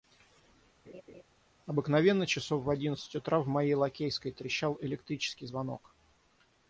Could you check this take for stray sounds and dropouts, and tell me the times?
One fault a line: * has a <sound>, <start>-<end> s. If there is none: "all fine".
* has a laugh, 0.8-1.2 s